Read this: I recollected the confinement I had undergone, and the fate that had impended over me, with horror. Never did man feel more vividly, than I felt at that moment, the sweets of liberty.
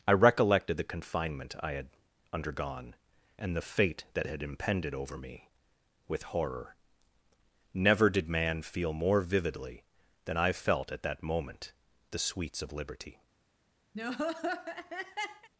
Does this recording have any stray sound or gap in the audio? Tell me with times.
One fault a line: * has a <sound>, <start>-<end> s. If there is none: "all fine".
* has a laugh, 13.9-15.5 s